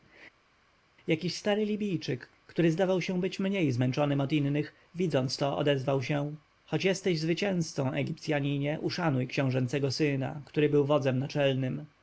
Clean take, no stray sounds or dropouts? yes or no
yes